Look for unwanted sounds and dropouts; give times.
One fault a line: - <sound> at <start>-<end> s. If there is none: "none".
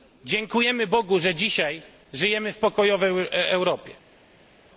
none